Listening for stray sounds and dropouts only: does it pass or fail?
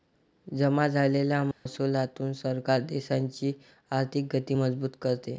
fail